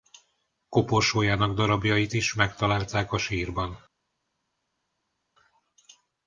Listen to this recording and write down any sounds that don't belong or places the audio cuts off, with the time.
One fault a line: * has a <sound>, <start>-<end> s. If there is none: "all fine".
all fine